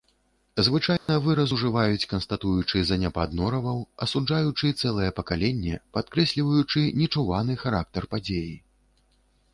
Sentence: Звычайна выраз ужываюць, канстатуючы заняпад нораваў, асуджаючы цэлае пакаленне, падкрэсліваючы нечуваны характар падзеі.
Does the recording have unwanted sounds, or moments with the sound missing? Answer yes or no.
yes